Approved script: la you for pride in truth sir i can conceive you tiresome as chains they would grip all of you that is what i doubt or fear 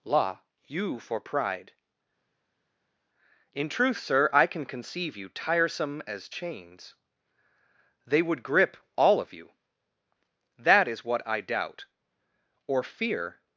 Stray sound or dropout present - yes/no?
no